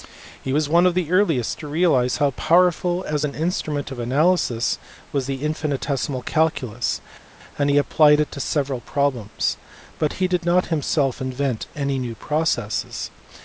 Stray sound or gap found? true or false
false